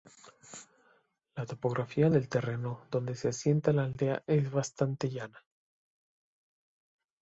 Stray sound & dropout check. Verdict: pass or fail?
pass